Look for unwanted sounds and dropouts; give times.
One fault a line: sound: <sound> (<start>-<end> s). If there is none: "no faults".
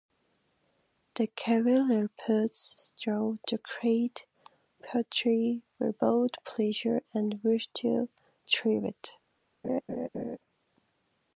sound: laugh (9.6-10.4 s)